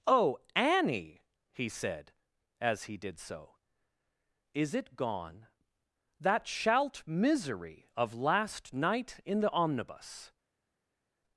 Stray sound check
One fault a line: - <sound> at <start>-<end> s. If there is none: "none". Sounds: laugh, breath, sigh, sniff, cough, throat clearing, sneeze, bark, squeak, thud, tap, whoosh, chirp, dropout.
none